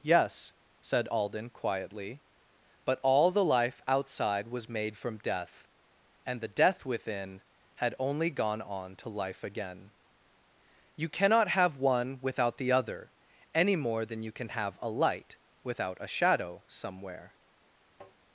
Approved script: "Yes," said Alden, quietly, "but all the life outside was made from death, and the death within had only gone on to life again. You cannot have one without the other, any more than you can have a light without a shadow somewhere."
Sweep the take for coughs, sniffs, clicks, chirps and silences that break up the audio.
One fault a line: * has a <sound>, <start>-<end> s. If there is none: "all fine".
* has a tap, 18.0-18.2 s